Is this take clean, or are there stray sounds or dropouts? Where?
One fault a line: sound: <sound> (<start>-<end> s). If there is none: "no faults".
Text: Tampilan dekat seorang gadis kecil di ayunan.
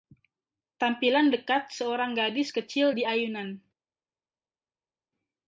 no faults